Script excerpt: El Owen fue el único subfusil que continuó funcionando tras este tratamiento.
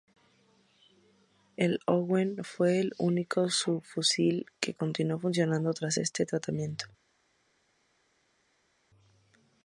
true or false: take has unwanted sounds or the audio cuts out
false